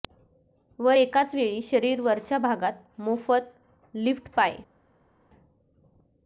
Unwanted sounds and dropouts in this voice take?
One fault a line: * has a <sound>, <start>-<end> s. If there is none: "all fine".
all fine